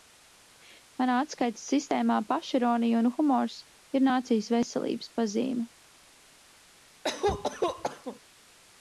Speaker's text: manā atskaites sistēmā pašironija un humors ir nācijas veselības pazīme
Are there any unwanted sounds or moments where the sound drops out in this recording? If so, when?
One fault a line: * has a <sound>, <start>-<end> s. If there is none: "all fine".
* has a cough, 7.0-8.2 s